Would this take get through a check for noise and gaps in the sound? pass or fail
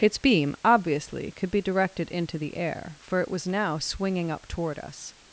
pass